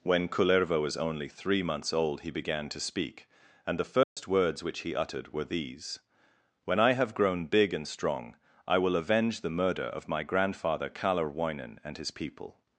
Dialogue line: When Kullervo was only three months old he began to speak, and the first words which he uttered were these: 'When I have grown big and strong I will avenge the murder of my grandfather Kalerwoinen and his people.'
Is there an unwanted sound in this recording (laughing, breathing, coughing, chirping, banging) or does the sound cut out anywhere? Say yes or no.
yes